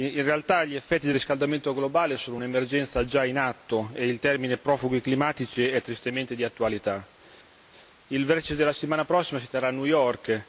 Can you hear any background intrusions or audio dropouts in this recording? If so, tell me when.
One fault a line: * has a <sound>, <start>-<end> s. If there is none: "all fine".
all fine